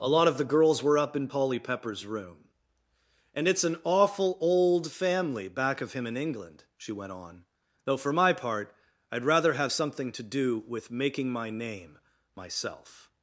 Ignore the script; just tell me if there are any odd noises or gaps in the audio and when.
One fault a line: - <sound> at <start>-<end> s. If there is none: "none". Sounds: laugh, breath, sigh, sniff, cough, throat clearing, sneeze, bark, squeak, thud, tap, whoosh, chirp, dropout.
none